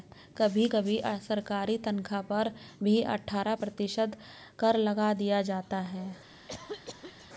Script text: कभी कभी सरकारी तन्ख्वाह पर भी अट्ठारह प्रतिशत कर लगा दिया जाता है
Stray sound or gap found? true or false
true